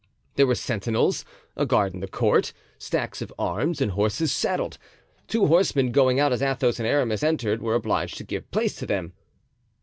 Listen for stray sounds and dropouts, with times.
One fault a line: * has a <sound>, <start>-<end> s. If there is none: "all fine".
all fine